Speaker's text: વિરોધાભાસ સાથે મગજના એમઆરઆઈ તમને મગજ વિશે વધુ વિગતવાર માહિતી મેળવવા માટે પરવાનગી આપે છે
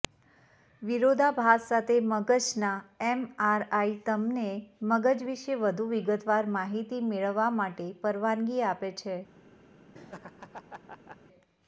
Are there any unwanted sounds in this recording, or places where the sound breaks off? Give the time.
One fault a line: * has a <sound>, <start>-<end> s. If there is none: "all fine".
* has a laugh, 9.9-11.2 s